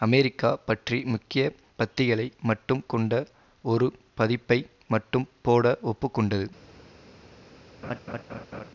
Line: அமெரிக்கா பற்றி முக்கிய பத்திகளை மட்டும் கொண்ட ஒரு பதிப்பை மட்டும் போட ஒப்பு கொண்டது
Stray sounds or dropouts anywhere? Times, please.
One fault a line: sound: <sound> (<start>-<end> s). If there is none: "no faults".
sound: laugh (7.8-8.7 s)